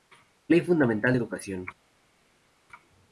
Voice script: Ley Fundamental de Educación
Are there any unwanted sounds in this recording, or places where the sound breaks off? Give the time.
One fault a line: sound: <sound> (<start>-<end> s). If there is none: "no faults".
no faults